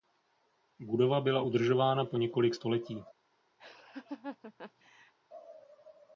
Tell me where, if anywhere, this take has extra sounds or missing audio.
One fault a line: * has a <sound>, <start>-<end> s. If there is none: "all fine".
* has a laugh, 3.6-5.1 s